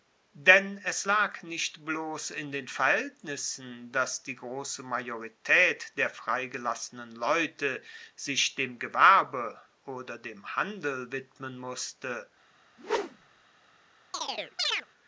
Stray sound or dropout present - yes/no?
yes